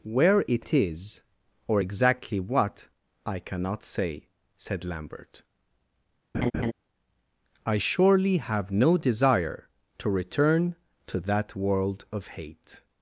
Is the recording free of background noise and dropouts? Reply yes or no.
no